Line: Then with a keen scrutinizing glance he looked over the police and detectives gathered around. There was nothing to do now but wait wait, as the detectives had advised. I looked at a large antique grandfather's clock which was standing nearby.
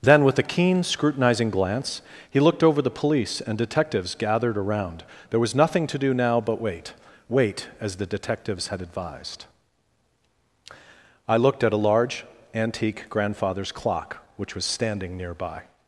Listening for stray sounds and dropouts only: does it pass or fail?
pass